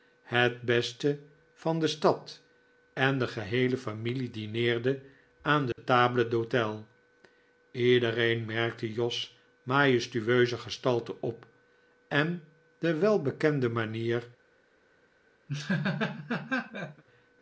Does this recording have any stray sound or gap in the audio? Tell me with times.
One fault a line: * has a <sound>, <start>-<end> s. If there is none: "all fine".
* has a dropout, 5.7-5.8 s
* has a laugh, 15.5-17.0 s